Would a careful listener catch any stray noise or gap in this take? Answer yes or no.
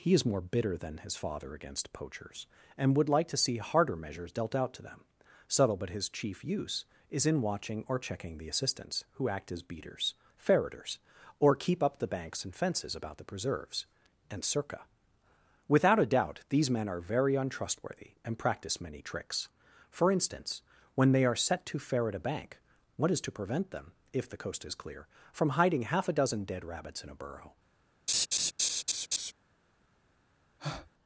yes